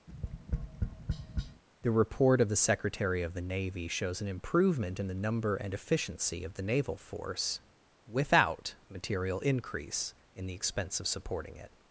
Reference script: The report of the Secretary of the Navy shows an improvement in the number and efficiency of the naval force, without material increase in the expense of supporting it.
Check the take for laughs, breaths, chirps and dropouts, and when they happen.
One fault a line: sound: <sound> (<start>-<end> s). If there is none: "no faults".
sound: tap (0.1-1.6 s)